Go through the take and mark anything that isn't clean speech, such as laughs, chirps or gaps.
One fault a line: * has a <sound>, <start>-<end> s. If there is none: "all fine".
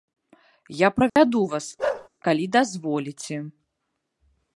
* has a dropout, 1.1-1.2 s
* has a bark, 1.8-2.1 s